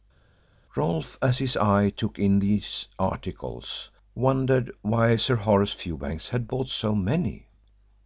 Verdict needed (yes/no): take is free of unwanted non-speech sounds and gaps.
yes